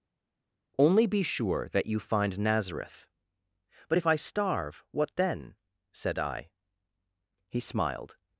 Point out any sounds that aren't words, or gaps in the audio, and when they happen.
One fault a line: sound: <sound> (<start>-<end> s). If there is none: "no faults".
no faults